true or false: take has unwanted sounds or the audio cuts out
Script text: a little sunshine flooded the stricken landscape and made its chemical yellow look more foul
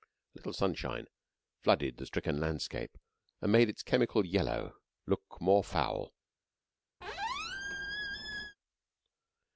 true